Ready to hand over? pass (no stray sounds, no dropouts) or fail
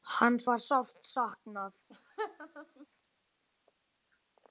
fail